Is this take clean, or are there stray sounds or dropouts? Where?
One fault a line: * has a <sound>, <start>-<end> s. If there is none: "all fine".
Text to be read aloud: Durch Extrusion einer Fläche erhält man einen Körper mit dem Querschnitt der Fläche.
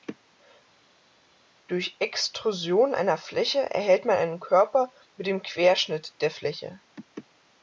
all fine